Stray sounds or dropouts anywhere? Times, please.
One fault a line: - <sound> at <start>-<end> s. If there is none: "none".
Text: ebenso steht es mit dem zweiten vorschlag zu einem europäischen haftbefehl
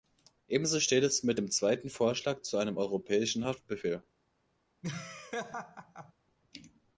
- laugh at 4.8-6.1 s